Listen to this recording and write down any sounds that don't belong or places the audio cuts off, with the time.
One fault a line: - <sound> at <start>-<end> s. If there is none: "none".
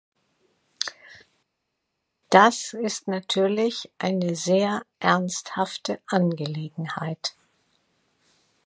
none